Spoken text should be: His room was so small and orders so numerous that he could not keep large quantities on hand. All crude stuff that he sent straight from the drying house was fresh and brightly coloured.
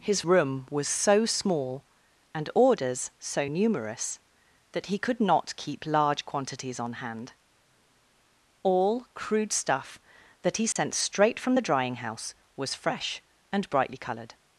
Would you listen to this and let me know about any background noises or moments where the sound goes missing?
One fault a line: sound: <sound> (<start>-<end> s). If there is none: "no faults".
sound: dropout (10.7-10.8 s)